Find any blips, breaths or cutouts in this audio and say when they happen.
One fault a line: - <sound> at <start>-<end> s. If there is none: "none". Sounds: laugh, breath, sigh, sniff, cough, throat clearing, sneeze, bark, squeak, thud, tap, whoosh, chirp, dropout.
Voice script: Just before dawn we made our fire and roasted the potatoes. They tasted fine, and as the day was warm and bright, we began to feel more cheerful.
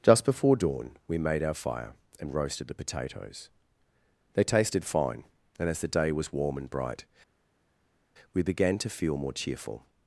none